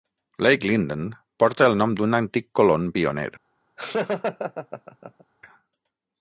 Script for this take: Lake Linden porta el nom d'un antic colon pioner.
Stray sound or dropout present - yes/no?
yes